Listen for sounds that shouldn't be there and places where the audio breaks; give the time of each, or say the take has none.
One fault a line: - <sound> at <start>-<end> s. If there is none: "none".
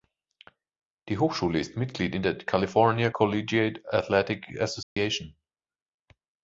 - dropout at 4.8-5.0 s